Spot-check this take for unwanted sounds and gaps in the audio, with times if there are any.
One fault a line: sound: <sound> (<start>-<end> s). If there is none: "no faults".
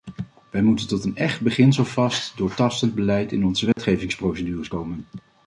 sound: dropout (3.7-3.8 s)